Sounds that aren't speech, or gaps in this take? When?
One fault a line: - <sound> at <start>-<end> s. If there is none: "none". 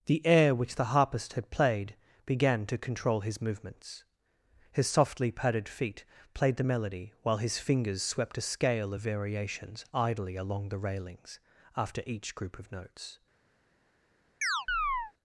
- chirp at 14.4-15.1 s